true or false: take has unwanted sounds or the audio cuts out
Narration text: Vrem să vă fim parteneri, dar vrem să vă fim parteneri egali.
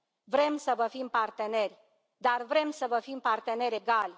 false